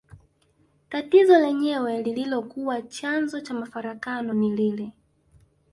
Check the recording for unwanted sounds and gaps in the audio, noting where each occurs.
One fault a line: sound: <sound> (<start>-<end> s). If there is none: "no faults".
no faults